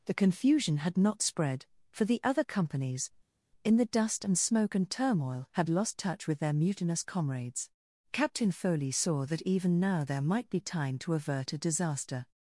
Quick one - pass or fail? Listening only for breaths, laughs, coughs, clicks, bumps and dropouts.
pass